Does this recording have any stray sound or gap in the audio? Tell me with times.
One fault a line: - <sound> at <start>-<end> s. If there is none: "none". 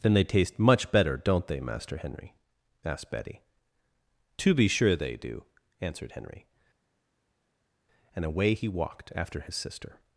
none